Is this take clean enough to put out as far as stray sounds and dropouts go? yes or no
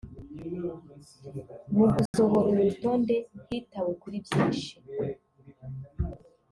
no